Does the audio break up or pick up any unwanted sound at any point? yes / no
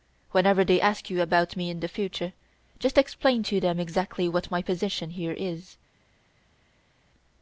no